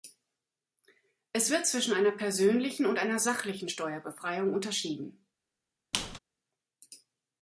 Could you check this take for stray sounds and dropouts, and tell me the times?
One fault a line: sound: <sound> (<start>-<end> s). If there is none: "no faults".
sound: squeak (5.9-6.2 s)